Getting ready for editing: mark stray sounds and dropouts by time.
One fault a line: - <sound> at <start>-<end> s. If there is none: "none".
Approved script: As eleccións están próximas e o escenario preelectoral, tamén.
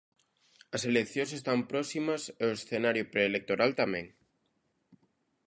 none